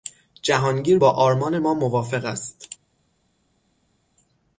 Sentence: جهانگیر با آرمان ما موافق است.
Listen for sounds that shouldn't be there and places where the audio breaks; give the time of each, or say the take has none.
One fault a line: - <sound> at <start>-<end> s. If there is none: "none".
none